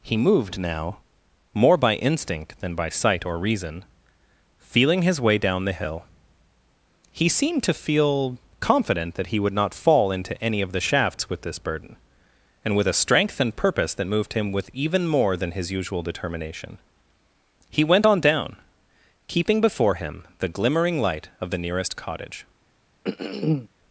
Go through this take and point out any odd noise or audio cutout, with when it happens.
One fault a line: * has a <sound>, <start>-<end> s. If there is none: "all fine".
* has a throat clearing, 23.0-23.7 s